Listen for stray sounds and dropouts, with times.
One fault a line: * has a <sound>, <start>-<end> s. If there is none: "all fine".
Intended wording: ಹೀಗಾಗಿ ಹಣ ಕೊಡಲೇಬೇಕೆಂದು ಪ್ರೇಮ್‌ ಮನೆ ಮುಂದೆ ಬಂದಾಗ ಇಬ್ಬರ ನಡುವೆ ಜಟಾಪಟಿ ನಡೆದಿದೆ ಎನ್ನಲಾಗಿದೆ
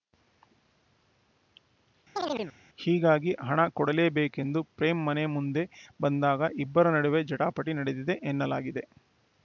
* has a chirp, 2.2-2.6 s